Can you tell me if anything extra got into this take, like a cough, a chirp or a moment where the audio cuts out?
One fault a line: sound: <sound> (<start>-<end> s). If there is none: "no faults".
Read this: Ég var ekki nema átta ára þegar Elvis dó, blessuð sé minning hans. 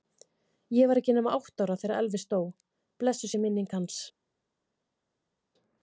no faults